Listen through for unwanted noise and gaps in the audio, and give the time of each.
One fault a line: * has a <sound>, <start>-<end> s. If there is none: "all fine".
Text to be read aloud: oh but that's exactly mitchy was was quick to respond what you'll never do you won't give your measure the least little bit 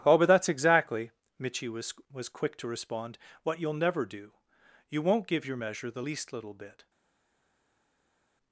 all fine